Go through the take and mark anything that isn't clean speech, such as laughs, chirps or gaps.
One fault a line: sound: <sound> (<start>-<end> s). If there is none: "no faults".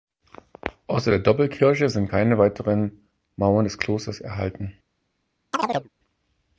sound: chirp (5.5-5.9 s)